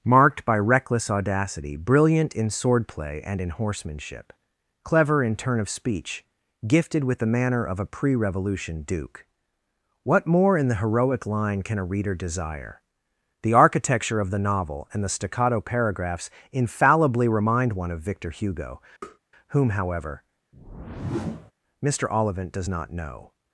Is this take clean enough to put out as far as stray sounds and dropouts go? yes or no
no